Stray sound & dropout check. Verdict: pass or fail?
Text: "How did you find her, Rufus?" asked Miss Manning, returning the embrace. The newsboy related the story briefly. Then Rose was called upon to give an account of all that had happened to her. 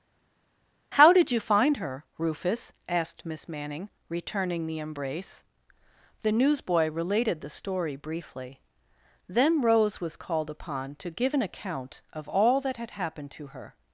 pass